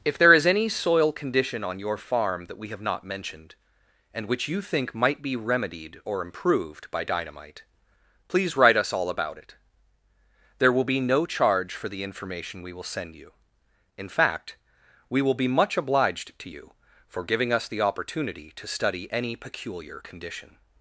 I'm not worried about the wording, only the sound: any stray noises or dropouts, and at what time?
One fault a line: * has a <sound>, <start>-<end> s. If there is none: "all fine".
all fine